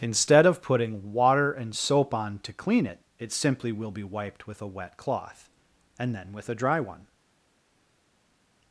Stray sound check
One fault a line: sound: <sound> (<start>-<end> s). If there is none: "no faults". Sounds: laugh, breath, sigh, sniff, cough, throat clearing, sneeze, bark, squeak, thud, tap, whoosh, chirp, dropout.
no faults